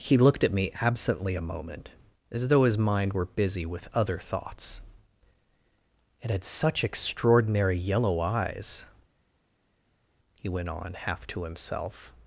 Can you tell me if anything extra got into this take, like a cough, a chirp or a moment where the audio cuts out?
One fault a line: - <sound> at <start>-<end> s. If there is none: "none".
none